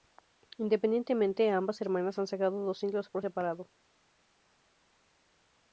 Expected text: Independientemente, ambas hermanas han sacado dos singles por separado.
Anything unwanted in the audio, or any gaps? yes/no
no